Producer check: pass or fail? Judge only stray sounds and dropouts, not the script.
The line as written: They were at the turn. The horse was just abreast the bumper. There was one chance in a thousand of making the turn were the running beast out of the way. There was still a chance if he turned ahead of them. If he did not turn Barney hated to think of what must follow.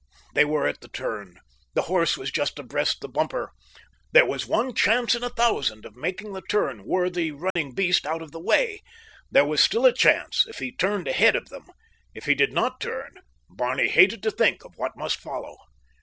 fail